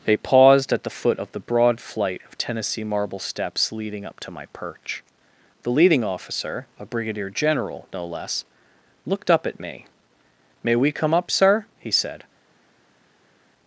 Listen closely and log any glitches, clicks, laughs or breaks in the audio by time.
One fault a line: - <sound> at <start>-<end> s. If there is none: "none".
none